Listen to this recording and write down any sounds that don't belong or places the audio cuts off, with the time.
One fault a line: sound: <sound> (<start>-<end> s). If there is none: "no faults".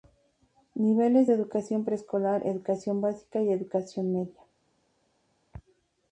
no faults